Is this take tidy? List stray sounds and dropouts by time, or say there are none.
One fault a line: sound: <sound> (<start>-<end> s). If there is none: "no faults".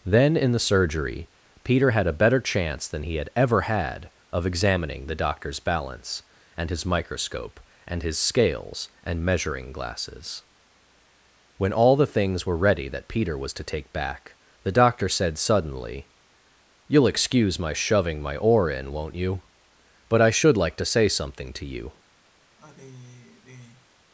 sound: sigh (22.6-23.9 s)